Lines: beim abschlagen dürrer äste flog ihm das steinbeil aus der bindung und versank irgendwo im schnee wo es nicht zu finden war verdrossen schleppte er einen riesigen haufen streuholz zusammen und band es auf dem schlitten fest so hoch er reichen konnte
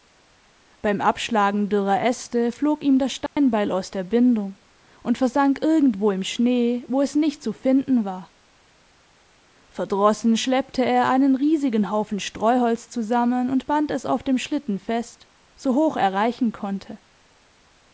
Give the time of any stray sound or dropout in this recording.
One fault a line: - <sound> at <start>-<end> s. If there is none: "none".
- dropout at 3.3-3.4 s